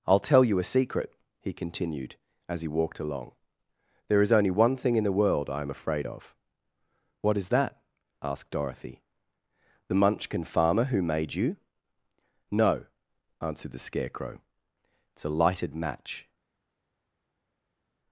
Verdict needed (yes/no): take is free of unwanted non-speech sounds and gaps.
yes